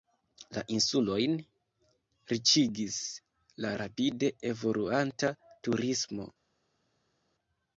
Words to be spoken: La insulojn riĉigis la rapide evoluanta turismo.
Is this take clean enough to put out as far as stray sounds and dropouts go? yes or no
yes